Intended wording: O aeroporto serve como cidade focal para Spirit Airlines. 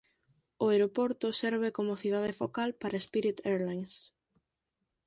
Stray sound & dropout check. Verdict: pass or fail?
pass